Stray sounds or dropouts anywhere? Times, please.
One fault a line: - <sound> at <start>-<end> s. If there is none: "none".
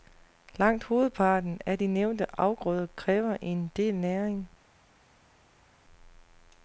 none